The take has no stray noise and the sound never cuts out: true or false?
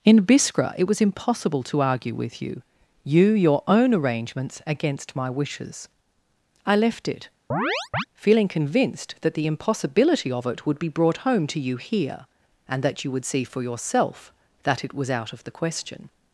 false